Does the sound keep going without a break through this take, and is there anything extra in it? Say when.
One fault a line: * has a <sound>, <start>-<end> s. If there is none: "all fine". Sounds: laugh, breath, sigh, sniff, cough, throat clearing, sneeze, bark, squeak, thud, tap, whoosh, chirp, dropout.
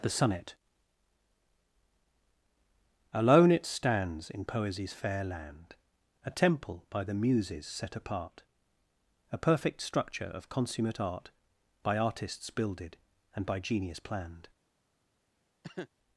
* has a cough, 15.6-15.9 s